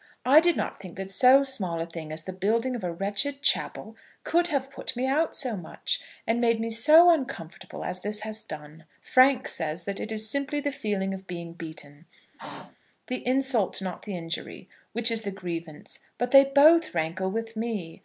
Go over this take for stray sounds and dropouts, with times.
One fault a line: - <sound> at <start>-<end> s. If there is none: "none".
- throat clearing at 12.3-12.8 s